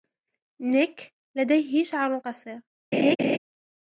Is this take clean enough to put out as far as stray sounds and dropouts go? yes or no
no